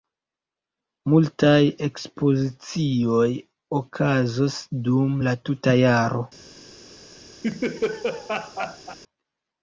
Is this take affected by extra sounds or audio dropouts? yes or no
yes